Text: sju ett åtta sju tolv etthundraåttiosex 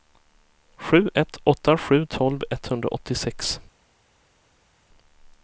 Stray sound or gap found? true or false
false